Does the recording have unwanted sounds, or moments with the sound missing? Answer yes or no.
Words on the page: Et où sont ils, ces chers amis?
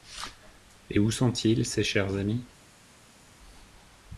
no